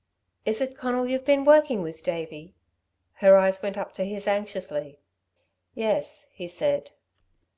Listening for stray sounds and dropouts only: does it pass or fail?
pass